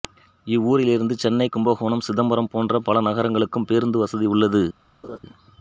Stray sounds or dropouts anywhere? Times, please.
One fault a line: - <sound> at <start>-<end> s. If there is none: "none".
- laugh at 5.0-5.2 s